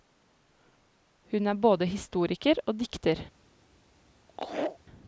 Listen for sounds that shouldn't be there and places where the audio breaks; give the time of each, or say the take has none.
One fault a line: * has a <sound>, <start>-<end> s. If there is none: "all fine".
* has a laugh, 4.3-4.8 s